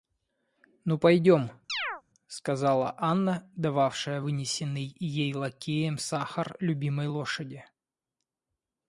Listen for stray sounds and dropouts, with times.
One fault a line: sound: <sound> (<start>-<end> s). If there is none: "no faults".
sound: chirp (1.7-2.0 s)